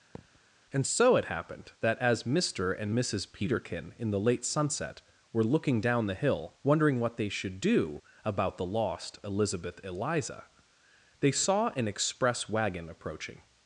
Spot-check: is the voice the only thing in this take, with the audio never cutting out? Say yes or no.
no